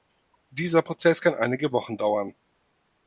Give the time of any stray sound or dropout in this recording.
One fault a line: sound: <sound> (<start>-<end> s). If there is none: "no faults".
no faults